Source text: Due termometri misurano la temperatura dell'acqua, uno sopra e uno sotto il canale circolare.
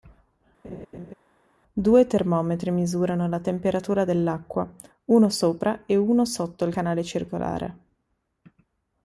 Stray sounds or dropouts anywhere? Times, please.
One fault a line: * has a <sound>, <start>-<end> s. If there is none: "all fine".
* has a laugh, 0.6-1.1 s